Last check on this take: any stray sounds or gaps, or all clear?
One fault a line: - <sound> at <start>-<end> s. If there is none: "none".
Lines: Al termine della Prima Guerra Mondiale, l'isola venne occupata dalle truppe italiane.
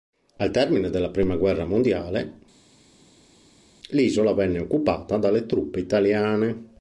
none